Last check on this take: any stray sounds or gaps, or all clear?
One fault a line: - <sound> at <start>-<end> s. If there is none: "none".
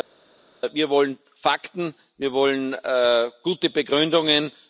none